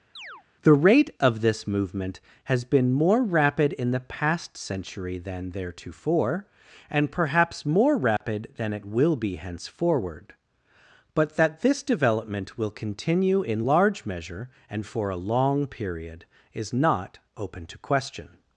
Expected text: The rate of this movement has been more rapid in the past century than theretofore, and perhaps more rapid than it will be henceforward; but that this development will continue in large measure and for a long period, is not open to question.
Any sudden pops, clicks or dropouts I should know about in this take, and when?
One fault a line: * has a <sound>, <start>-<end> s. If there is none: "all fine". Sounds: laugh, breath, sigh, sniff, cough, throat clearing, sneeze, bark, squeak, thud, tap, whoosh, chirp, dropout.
* has a chirp, 0.2-0.4 s
* has a dropout, 8.2-8.2 s